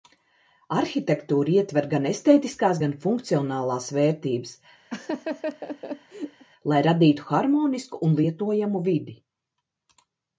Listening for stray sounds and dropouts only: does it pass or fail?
fail